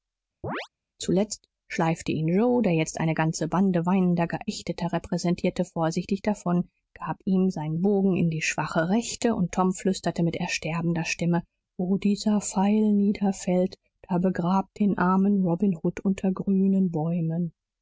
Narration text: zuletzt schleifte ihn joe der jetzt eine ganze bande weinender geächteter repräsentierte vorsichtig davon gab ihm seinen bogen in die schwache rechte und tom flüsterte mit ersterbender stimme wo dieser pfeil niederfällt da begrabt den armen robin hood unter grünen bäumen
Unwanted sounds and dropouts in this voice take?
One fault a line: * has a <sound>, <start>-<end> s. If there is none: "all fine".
* has a chirp, 0.4-0.7 s